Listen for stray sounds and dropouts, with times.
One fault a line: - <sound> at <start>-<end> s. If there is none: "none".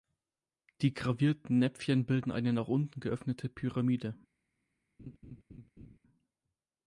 - laugh at 5.0-6.0 s